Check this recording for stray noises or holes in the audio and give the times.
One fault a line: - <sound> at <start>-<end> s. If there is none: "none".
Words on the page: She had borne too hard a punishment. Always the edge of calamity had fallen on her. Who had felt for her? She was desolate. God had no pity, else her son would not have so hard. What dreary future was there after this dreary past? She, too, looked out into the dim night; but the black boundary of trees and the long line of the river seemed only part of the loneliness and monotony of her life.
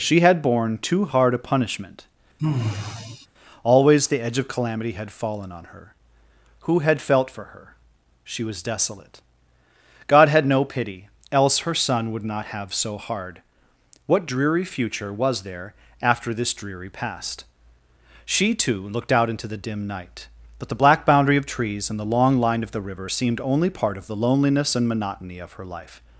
- sigh at 2.4-3.3 s